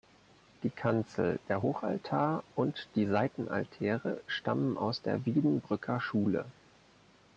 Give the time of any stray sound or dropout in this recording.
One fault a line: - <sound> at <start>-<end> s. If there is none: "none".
none